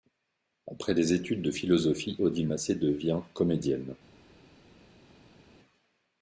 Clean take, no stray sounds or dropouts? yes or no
yes